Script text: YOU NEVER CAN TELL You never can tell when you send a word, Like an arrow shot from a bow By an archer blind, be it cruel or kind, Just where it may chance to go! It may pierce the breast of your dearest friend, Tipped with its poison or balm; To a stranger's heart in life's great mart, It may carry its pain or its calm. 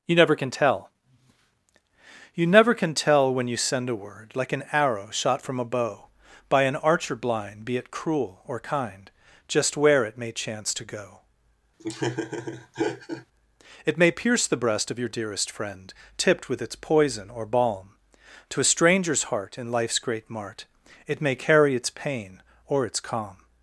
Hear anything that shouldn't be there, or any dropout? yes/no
yes